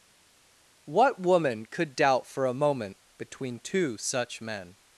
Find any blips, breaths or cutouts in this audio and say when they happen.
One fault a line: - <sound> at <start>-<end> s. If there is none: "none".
none